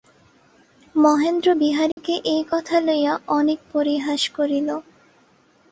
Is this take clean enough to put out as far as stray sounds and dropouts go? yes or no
no